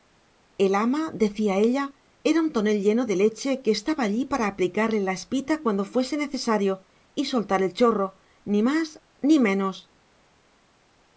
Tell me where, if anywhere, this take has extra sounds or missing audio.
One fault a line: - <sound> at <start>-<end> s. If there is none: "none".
none